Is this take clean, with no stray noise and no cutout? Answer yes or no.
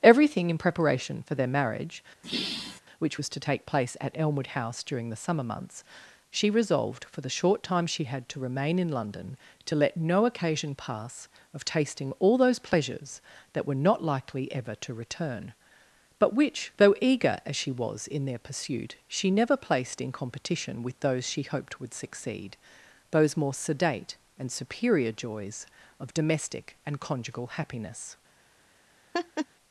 no